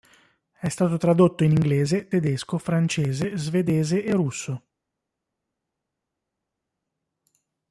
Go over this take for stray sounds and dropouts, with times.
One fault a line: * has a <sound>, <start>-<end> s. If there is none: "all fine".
all fine